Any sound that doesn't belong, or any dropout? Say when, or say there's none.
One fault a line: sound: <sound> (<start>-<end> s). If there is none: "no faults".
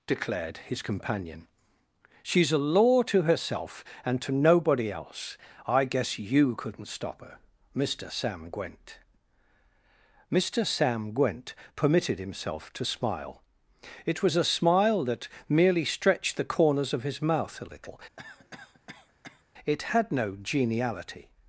sound: cough (18.2-19.4 s)